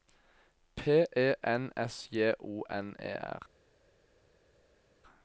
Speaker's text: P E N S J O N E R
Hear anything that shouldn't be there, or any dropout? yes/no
no